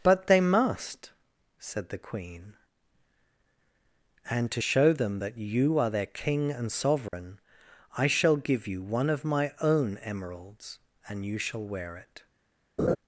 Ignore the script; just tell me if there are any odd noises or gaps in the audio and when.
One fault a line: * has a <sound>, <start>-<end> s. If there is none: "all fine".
* has a dropout, 7.1-7.1 s
* has a laugh, 12.8-13.0 s